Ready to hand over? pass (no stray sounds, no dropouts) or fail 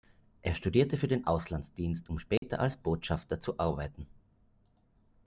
fail